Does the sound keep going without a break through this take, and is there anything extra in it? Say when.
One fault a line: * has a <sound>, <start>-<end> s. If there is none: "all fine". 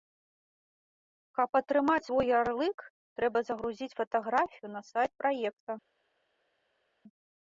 all fine